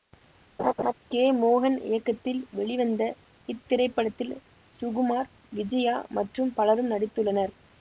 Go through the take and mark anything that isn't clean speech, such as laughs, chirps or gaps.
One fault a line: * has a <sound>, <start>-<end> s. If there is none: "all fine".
* has a laugh, 0.6-0.9 s